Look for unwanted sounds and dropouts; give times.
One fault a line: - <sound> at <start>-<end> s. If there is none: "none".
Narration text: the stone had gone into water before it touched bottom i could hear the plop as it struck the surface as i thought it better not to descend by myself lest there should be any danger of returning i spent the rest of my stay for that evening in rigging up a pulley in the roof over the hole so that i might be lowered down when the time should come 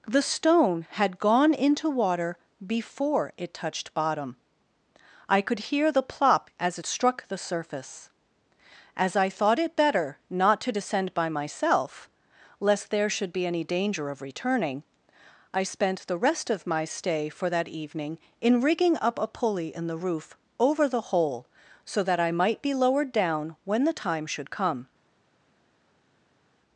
none